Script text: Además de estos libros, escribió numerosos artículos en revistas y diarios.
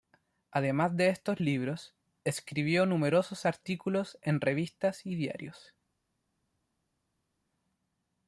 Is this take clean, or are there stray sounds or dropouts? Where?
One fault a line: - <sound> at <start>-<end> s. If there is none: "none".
none